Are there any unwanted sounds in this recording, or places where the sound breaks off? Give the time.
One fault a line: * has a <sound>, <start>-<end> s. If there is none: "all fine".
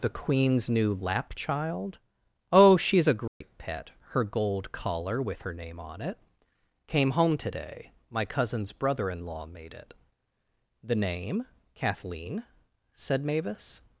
* has a dropout, 3.3-3.4 s